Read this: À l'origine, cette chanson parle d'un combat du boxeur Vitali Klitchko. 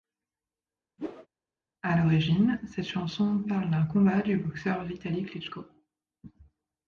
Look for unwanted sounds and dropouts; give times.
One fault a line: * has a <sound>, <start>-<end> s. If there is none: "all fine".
* has a whoosh, 1.0-1.3 s